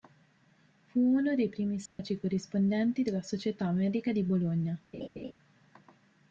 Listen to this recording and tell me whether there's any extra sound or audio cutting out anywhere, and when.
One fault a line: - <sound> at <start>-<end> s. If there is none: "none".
- dropout at 1.9-2.0 s
- laugh at 4.9-5.3 s